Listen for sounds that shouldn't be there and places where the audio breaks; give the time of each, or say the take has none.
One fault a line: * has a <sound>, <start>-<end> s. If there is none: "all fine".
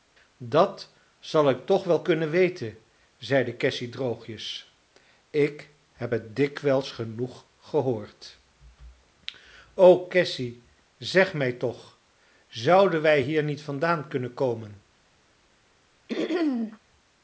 * has a throat clearing, 16.1-16.8 s